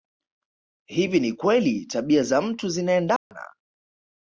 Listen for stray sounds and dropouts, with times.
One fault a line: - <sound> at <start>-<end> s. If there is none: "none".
- dropout at 3.2-3.3 s